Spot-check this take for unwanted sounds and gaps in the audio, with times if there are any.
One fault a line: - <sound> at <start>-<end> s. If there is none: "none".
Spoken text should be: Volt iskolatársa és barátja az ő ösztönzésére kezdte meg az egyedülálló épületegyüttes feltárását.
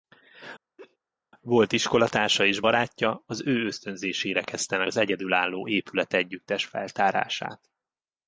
- laugh at 0.8-1.0 s